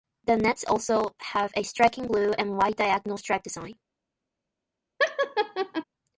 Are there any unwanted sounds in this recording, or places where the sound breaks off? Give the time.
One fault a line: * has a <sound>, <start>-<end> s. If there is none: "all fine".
* has a laugh, 5.0-5.8 s